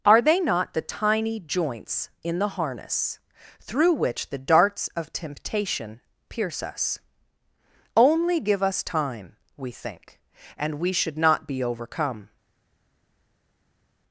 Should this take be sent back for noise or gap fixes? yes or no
no